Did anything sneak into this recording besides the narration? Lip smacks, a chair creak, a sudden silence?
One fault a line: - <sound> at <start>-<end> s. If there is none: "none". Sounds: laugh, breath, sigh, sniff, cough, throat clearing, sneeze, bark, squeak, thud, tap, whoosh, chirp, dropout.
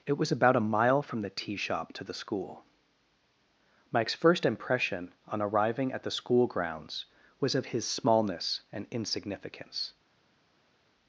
none